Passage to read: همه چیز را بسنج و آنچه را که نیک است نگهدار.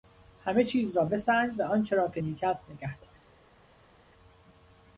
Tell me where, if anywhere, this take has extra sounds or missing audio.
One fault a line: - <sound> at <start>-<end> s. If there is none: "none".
none